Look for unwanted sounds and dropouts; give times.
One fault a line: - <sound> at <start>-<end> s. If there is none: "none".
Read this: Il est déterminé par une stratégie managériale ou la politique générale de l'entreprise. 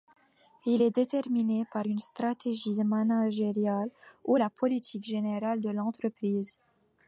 none